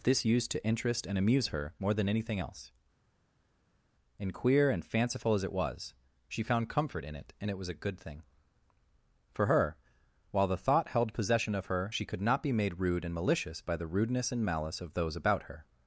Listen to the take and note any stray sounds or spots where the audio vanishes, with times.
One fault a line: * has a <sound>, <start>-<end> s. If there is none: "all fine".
all fine